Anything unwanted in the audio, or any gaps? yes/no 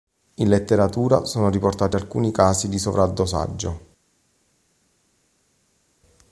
no